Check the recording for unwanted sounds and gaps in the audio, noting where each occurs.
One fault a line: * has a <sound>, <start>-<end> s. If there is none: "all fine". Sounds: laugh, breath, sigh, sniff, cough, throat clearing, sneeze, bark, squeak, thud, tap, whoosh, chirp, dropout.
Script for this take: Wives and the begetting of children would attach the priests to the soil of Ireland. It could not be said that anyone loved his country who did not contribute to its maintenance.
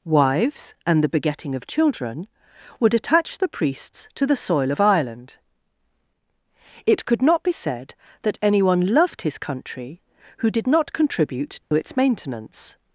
* has a dropout, 11.6-11.7 s